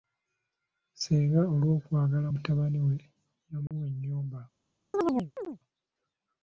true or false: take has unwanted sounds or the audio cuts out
true